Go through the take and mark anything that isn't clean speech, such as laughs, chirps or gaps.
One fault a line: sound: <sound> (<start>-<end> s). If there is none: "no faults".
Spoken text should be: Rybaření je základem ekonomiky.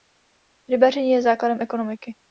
no faults